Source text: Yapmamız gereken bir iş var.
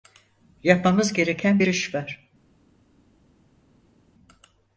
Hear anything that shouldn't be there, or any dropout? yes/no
no